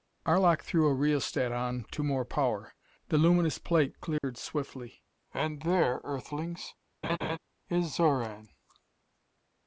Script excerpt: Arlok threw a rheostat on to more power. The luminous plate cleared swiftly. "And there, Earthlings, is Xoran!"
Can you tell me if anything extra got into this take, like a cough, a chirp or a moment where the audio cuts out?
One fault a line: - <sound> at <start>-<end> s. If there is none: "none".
- dropout at 4.2-4.2 s
- laugh at 7.0-7.4 s